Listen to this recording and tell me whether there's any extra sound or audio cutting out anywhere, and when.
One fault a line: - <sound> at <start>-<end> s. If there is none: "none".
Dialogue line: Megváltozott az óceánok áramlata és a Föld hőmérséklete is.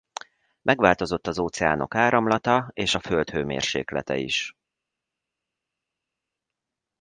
none